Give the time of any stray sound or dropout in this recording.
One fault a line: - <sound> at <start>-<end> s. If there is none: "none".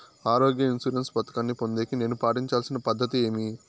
none